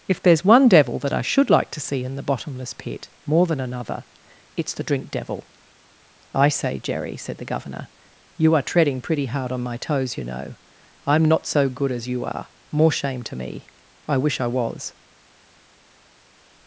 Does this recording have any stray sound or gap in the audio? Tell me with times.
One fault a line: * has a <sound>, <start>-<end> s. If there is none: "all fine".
all fine